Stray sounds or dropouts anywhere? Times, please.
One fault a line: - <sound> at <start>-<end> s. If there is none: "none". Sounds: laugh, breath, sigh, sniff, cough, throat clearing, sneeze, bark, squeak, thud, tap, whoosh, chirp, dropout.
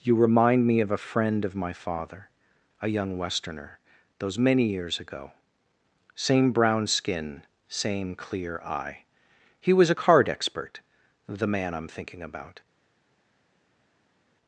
none